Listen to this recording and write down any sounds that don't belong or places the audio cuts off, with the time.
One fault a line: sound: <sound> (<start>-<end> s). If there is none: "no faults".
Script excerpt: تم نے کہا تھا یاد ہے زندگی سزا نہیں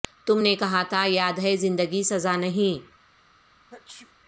sound: sneeze (3.7-4.1 s)